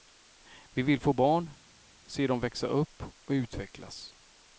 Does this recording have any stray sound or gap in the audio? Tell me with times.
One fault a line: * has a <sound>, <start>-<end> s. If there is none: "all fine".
all fine